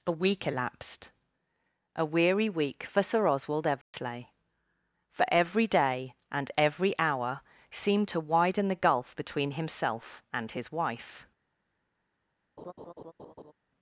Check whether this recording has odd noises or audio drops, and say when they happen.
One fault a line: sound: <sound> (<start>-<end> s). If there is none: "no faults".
sound: dropout (3.8-3.9 s)
sound: laugh (12.6-13.5 s)